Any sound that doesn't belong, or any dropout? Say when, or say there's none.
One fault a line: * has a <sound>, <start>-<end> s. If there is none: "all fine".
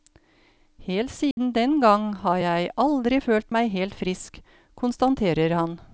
* has a dropout, 1.3-1.4 s